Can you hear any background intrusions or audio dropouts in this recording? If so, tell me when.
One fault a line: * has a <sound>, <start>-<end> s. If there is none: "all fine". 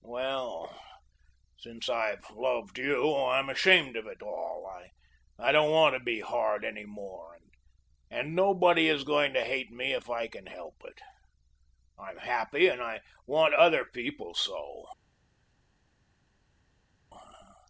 all fine